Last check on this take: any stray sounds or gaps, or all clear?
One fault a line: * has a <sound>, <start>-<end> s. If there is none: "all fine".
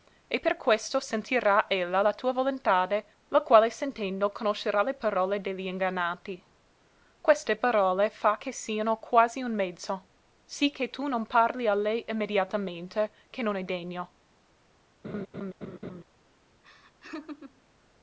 * has a laugh, 15.0-16.0 s
* has a laugh, 16.6-17.6 s